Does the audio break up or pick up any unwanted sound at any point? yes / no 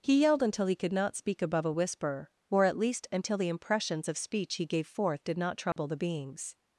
yes